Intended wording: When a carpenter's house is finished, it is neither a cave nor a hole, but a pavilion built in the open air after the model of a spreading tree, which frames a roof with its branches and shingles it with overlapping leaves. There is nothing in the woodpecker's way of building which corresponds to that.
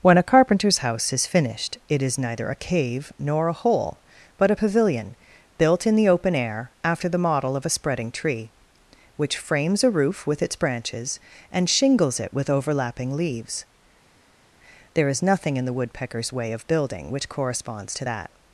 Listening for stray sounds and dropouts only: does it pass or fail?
pass